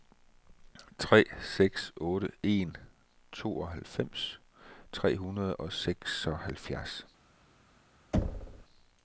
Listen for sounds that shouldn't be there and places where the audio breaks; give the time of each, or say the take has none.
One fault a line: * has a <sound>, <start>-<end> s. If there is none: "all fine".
* has a thud, 8.1-8.7 s